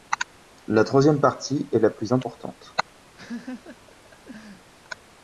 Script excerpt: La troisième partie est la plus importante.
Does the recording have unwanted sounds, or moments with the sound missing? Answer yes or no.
yes